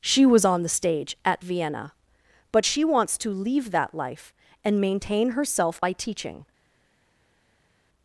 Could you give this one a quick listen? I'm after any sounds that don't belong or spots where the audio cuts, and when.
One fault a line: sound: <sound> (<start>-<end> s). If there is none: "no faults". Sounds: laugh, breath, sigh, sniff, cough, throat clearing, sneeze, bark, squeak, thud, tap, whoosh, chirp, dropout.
no faults